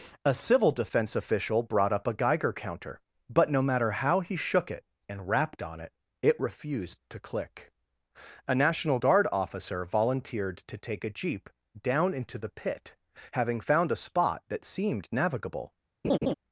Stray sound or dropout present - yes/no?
yes